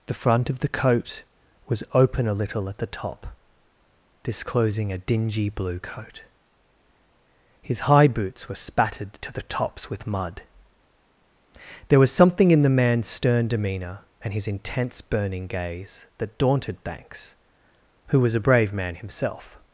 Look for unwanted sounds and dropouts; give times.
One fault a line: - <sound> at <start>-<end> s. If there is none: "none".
none